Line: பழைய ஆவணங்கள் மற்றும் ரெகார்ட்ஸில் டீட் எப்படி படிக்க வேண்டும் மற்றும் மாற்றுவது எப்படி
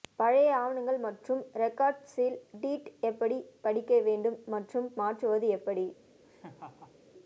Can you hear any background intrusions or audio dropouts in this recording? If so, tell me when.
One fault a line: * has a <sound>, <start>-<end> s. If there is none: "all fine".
* has a laugh, 6.2-7.0 s